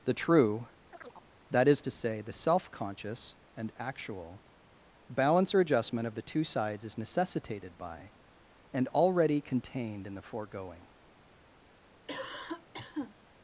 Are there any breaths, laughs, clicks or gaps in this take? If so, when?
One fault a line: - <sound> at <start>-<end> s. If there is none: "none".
- chirp at 0.9-1.3 s
- cough at 12.1-13.2 s